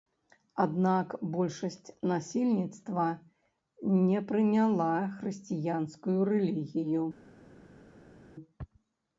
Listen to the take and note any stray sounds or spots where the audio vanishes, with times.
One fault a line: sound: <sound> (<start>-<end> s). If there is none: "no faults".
no faults